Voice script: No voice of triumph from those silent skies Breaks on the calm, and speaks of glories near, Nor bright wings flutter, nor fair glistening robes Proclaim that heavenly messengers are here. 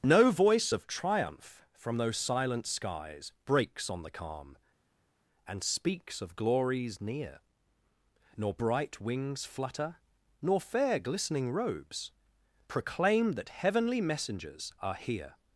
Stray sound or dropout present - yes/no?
no